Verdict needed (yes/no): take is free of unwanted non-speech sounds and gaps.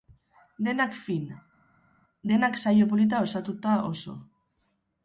yes